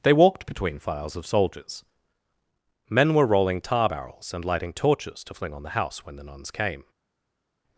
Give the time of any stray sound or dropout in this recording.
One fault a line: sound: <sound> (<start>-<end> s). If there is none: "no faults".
no faults